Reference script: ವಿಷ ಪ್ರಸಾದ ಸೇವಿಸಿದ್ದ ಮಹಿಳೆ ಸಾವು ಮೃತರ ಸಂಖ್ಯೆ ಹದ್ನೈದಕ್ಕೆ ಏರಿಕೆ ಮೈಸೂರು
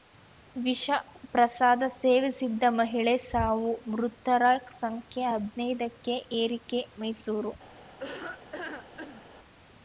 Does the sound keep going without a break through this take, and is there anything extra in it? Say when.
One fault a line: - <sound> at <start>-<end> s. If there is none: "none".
- laugh at 8.0-9.2 s